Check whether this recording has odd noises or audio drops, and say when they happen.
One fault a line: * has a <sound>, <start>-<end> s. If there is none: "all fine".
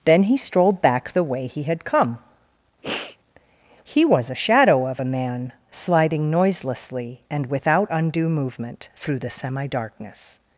* has a sniff, 2.8-3.2 s